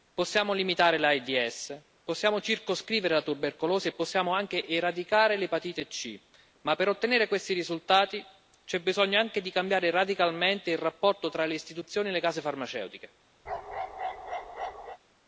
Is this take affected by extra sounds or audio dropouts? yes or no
yes